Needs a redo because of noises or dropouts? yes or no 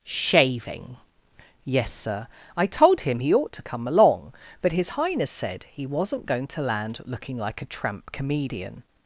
no